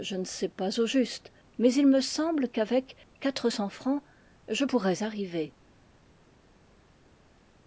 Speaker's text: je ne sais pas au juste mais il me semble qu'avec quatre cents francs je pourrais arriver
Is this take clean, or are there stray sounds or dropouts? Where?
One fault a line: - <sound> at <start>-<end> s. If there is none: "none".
none